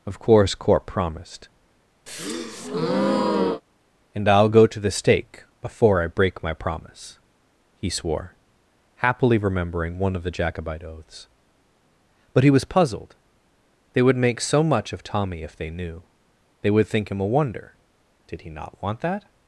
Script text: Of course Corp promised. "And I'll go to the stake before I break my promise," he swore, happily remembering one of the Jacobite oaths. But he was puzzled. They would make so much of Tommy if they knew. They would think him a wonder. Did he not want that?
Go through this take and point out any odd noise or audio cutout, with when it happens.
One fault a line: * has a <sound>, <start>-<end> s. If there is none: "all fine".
* has a breath, 2.1-3.6 s